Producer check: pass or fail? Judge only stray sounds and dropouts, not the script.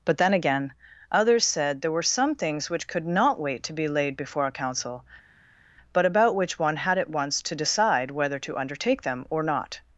pass